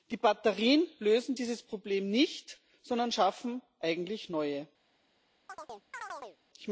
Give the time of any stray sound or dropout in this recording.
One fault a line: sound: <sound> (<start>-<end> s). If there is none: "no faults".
sound: chirp (5.5-6.4 s)